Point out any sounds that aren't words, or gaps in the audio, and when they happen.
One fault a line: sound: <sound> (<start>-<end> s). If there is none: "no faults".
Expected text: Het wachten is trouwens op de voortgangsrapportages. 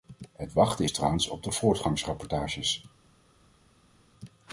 no faults